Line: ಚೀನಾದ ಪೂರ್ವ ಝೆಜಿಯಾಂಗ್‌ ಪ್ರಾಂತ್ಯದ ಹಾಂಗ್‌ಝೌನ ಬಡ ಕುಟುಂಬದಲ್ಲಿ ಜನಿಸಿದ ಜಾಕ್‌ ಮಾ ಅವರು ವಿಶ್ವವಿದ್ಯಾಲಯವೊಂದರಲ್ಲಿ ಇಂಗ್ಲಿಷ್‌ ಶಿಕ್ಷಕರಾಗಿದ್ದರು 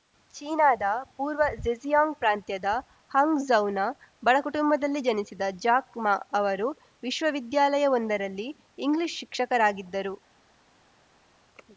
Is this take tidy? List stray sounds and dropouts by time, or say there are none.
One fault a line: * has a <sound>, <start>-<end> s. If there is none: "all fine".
all fine